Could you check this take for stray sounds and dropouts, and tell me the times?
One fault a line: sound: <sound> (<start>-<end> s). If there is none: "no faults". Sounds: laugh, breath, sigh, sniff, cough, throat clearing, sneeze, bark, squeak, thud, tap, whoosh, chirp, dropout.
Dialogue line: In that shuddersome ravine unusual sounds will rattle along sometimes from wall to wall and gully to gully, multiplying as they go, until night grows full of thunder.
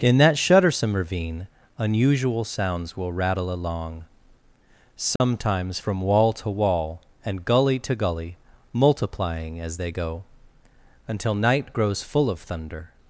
sound: dropout (5.2-5.2 s)